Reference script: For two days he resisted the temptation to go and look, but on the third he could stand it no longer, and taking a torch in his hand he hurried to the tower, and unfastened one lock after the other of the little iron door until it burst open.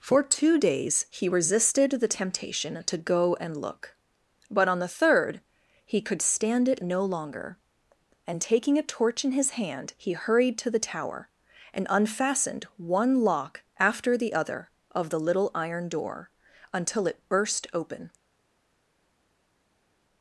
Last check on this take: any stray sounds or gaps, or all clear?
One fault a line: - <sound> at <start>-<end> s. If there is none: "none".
none